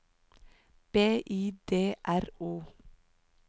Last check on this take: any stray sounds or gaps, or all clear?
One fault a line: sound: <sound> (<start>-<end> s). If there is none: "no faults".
no faults